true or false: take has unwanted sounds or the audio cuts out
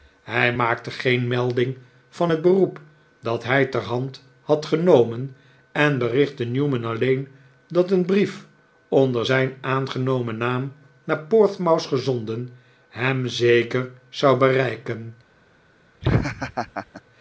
true